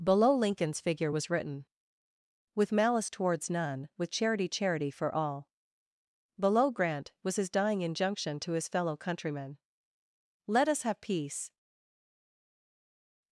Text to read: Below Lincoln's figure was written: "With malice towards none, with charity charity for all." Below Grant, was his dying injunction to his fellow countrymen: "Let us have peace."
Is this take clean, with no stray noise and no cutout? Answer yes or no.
yes